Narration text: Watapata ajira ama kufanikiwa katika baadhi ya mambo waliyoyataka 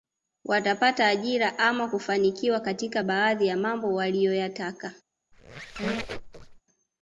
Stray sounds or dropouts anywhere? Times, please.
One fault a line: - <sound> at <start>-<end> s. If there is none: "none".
- squeak at 5.3-6.6 s